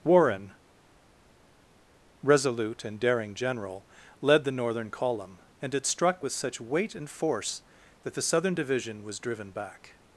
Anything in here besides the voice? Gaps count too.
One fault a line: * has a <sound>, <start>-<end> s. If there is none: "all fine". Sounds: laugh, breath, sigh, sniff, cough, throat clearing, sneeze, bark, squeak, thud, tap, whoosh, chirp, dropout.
all fine